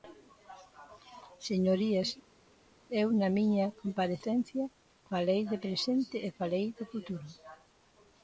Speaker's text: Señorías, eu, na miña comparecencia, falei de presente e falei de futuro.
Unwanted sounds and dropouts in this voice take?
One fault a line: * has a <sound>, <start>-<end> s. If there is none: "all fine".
all fine